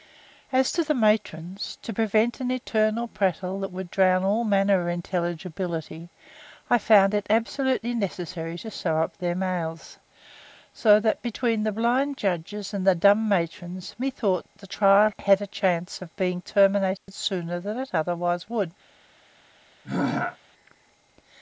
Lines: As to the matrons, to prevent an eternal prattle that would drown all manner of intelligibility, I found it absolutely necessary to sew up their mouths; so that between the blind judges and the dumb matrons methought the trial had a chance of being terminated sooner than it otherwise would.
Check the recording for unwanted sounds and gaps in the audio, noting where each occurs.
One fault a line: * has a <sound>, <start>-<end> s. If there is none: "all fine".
* has a dropout, 17.0-17.1 s
* has a throat clearing, 19.8-20.4 s